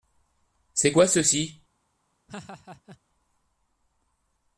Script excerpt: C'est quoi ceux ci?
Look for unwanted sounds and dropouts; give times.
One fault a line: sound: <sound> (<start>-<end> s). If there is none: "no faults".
sound: laugh (2.3-3.0 s)